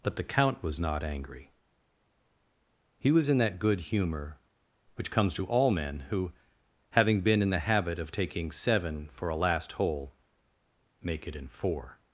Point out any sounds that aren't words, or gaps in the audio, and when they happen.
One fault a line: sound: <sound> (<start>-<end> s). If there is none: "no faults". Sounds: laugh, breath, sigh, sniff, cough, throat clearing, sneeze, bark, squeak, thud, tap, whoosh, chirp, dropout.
no faults